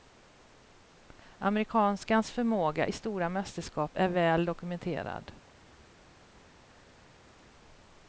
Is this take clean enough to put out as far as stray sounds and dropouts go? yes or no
yes